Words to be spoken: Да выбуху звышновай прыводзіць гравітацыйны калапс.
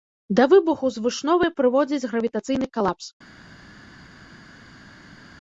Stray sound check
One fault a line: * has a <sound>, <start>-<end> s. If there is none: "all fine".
all fine